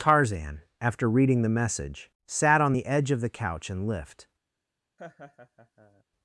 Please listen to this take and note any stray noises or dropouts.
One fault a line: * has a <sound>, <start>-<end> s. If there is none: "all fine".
* has a laugh, 5.0-6.0 s